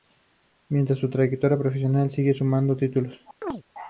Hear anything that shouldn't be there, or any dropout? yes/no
yes